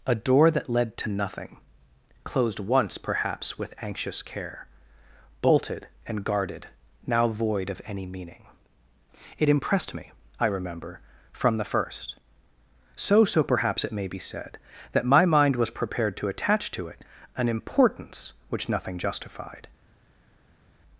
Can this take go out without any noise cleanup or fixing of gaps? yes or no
yes